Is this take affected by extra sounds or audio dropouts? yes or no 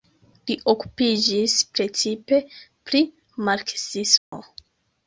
yes